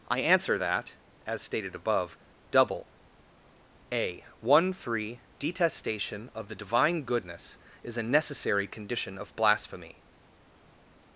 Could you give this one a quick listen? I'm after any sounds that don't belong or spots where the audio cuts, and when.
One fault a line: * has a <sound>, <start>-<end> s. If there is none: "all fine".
all fine